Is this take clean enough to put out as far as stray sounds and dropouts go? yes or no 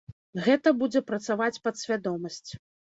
yes